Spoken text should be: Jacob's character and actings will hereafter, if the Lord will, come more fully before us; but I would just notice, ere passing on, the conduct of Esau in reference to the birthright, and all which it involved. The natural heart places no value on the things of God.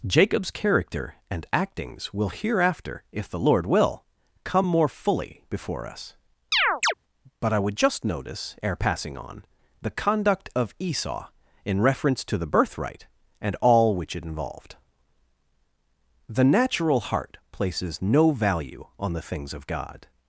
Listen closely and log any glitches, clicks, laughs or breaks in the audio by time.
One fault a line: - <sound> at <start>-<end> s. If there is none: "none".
- chirp at 6.5-6.9 s